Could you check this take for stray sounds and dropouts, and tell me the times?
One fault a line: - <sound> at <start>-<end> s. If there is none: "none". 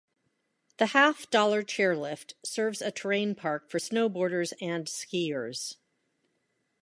none